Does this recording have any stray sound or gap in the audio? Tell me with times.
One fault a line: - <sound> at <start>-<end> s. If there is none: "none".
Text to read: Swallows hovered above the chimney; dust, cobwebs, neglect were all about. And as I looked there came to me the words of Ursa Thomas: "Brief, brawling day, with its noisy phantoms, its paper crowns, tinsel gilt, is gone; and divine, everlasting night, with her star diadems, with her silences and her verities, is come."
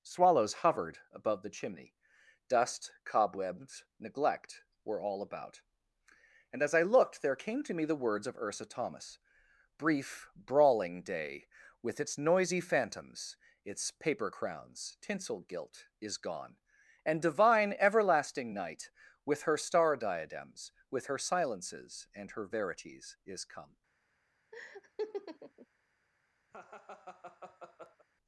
- laugh at 24.5-25.7 s
- laugh at 26.5-28.1 s